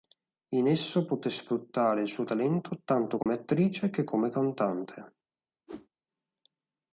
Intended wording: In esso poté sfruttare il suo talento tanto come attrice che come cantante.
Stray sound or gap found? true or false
true